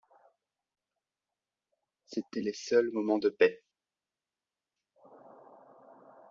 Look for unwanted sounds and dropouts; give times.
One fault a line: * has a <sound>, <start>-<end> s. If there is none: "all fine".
all fine